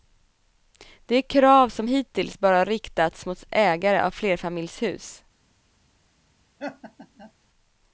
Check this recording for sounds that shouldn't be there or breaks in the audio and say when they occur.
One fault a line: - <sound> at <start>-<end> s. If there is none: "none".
- laugh at 6.6-7.3 s